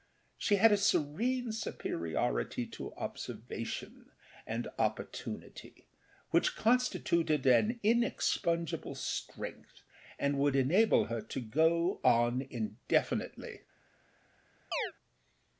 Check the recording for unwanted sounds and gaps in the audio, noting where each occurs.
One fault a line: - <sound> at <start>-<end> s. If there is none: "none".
- chirp at 14.7-14.9 s